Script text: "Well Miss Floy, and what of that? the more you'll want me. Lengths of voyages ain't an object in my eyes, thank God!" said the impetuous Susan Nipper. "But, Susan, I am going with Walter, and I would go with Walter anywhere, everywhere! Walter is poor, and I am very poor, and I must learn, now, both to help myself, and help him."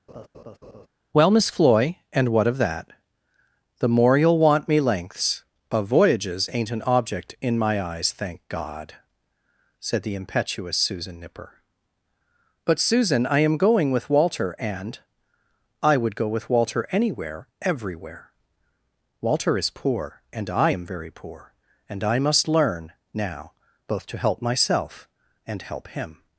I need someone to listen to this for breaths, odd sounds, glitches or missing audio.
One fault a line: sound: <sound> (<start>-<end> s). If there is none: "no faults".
sound: laugh (0.1-0.9 s)